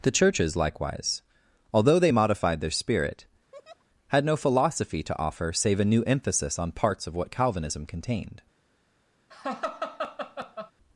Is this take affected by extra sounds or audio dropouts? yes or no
yes